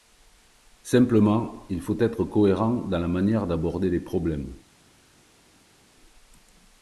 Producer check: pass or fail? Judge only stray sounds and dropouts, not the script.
pass